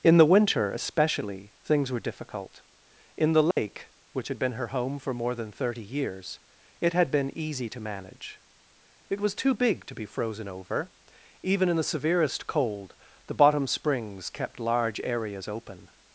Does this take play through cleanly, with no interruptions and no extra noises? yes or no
no